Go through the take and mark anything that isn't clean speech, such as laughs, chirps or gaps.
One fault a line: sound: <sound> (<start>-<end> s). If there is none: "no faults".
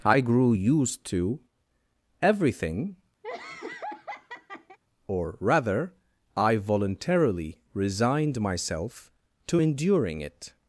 sound: laugh (3.2-4.8 s)